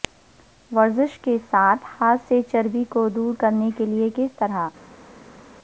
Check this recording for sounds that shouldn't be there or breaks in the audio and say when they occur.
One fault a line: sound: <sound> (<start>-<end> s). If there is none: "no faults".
no faults